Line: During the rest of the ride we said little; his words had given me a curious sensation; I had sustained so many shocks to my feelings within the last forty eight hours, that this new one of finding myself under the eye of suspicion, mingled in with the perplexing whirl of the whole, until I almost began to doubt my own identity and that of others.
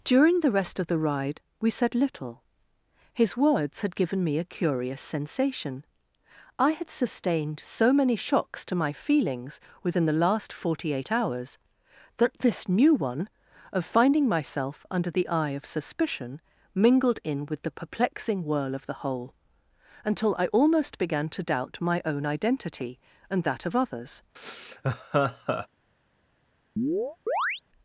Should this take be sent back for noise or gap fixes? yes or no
yes